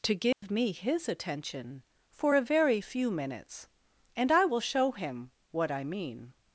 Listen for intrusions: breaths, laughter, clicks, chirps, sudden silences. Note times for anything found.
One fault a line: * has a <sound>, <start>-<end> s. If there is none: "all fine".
* has a dropout, 0.3-0.4 s